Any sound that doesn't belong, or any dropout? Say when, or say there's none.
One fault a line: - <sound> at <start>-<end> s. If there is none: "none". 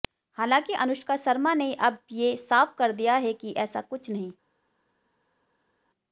none